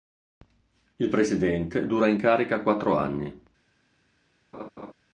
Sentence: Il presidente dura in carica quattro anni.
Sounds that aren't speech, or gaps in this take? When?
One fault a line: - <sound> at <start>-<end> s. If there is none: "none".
- laugh at 4.5-4.9 s